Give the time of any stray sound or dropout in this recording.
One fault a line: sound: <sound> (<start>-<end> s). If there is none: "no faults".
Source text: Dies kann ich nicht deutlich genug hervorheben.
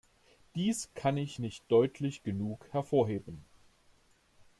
no faults